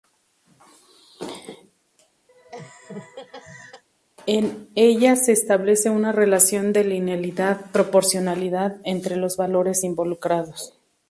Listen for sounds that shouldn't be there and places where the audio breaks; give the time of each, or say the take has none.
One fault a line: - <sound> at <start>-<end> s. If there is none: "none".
- laugh at 2.3-3.8 s